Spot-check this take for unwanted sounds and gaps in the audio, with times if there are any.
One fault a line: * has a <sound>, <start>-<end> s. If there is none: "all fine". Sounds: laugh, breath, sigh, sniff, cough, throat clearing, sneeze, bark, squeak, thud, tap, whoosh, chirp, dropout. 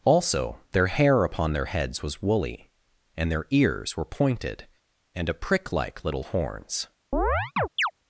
* has a chirp, 7.1-7.9 s